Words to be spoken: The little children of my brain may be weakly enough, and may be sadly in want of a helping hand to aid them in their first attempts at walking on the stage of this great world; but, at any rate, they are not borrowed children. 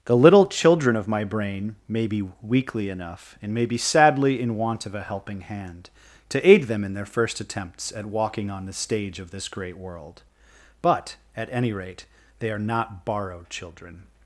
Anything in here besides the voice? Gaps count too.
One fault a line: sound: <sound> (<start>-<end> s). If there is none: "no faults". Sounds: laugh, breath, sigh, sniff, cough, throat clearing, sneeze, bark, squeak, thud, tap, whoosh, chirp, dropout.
no faults